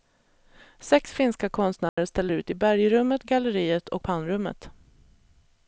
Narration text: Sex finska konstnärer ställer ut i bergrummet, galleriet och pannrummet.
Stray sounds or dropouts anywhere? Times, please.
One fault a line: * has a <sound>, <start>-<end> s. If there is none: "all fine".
* has a dropout, 1.9-2.0 s